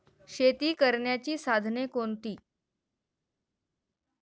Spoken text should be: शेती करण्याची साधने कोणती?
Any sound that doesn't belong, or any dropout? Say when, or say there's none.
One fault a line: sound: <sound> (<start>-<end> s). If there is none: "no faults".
no faults